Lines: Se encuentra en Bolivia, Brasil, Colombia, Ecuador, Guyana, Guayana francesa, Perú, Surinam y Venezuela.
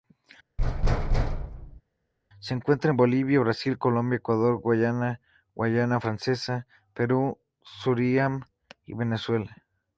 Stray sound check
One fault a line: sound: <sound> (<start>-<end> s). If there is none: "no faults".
sound: thud (0.6-1.8 s)